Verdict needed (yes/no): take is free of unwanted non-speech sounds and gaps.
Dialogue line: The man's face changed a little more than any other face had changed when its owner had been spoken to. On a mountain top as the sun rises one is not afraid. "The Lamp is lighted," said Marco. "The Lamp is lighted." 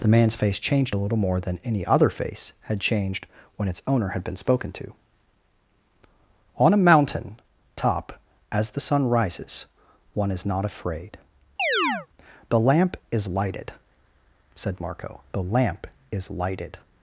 no